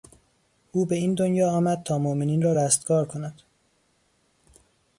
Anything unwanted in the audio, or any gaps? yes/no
no